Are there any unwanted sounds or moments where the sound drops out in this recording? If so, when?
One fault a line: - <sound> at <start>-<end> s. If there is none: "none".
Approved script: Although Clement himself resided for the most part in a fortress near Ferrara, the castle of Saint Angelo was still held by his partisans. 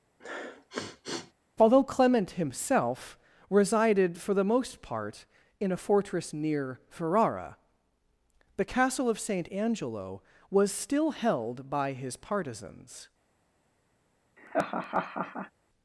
- sniff at 0.2-1.3 s
- laugh at 14.4-15.5 s